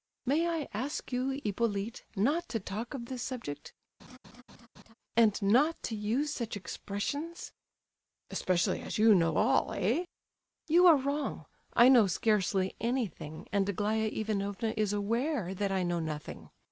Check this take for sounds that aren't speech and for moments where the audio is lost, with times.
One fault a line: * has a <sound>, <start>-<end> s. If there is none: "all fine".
* has a laugh, 4.0-4.9 s